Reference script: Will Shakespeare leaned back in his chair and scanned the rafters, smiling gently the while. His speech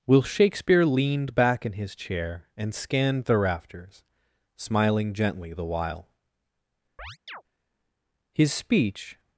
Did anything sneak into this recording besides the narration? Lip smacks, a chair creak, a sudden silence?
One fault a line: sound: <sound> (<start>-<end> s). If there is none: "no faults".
sound: chirp (7.0-7.4 s)